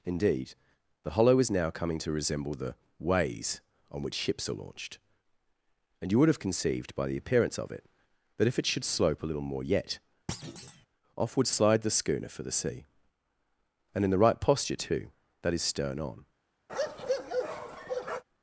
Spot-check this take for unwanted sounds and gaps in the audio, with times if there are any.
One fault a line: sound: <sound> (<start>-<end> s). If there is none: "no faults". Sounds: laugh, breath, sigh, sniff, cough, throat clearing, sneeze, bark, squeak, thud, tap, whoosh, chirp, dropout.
sound: thud (10.3-10.9 s)
sound: bark (16.7-18.2 s)